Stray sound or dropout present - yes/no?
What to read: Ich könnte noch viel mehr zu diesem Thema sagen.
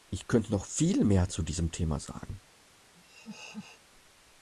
yes